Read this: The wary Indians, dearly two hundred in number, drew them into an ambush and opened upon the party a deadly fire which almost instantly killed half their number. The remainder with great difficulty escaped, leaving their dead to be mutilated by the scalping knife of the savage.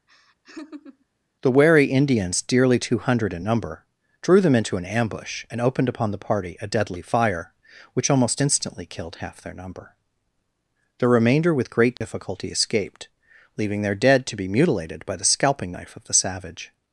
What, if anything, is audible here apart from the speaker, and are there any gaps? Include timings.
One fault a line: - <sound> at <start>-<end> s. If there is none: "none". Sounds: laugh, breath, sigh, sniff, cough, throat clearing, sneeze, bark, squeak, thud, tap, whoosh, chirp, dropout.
- laugh at 0.1-1.1 s
- dropout at 12.0-12.0 s